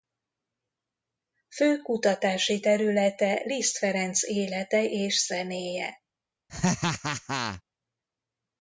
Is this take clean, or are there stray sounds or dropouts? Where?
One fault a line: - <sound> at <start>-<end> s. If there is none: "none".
- laugh at 6.5-7.6 s